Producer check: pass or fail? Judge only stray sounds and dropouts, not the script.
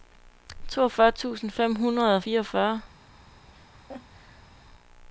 fail